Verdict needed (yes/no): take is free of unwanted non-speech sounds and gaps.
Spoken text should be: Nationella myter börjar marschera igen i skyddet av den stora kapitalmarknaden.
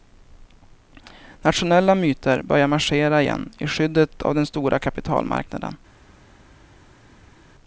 yes